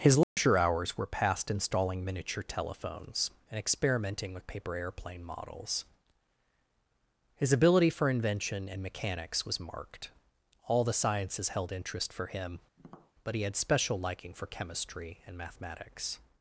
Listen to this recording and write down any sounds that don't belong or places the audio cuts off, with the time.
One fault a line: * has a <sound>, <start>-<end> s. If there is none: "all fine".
* has a dropout, 0.2-0.4 s
* has a tap, 12.8-13.1 s